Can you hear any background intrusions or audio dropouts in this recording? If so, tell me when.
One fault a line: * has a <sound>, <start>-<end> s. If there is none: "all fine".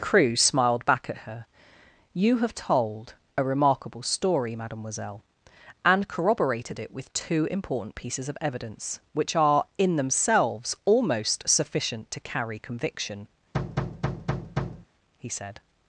* has a thud, 13.5-14.9 s